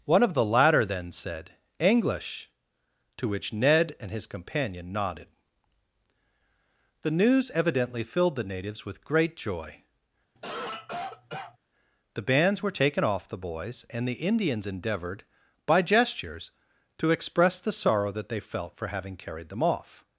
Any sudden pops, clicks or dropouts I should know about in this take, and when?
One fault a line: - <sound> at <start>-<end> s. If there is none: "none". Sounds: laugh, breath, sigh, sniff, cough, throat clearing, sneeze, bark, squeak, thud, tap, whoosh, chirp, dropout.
- cough at 10.4-11.6 s